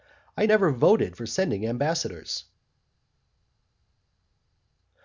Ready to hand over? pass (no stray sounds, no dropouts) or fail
pass